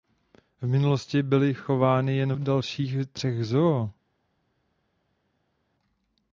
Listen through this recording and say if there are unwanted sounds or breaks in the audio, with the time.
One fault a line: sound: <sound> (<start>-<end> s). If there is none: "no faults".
no faults